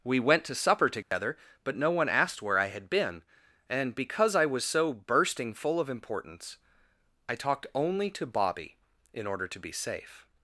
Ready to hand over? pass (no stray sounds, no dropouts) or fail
fail